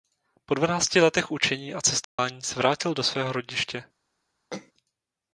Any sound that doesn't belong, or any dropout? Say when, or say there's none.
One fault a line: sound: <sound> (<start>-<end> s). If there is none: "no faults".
sound: dropout (2.0-2.2 s)
sound: throat clearing (4.5-4.7 s)